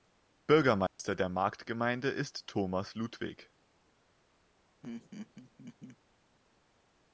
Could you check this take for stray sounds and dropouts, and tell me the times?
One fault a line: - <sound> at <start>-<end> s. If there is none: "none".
- dropout at 0.9-1.0 s
- laugh at 4.8-6.0 s